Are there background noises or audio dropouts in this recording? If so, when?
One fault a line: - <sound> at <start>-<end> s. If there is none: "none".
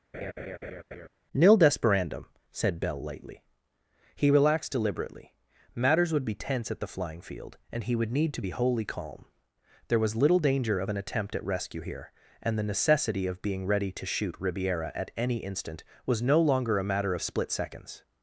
- laugh at 0.1-1.1 s